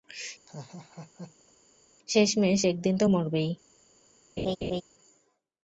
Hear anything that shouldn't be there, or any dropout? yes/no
yes